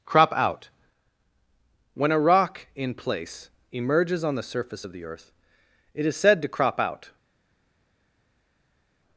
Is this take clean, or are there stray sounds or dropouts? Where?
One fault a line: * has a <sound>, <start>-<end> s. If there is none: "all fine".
all fine